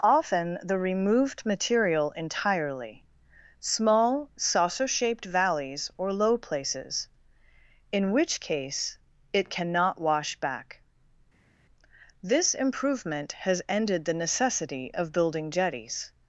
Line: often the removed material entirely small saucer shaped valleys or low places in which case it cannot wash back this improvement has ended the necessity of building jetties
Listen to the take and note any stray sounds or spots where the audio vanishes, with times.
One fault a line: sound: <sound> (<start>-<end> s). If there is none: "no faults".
no faults